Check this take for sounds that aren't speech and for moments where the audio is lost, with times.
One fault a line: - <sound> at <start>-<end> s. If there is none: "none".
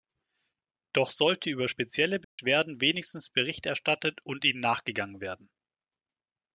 - dropout at 2.2-2.4 s